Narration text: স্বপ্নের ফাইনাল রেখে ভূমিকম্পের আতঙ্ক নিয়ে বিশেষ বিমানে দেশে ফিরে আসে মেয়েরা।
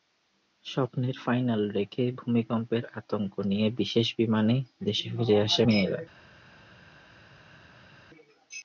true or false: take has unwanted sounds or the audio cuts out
false